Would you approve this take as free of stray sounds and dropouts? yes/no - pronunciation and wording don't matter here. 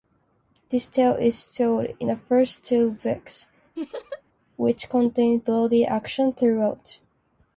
no